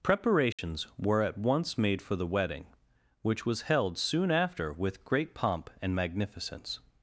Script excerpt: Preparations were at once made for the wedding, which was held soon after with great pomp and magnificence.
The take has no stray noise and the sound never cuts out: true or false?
false